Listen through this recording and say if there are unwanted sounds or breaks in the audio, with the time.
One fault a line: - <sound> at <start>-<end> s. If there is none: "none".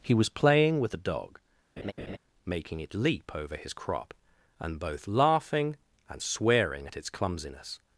- laugh at 1.8-2.2 s